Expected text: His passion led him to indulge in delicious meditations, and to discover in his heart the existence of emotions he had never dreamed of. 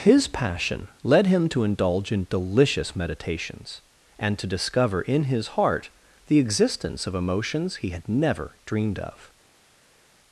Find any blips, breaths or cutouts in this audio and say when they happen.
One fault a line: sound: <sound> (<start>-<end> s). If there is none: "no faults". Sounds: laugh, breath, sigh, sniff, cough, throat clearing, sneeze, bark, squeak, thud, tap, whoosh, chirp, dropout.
no faults